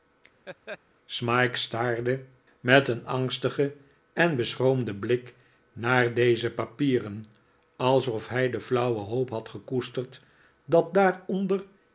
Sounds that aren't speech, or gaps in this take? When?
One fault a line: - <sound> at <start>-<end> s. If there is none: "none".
- laugh at 0.5-0.8 s